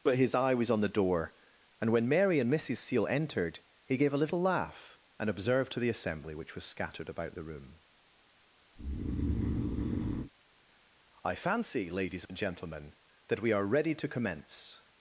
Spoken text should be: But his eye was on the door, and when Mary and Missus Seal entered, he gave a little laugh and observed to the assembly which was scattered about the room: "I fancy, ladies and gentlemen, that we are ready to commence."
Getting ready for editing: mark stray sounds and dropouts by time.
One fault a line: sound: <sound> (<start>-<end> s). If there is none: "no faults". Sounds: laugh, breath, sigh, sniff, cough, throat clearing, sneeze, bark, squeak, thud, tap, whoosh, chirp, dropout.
sound: breath (8.8-10.3 s)